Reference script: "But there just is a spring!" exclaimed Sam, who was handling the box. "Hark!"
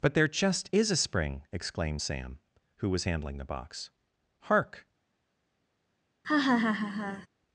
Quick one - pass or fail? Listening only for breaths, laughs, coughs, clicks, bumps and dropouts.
fail